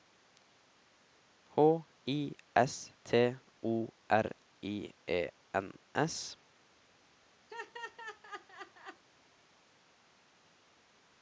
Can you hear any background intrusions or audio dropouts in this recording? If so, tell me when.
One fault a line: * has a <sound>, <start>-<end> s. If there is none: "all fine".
* has a laugh, 7.5-9.0 s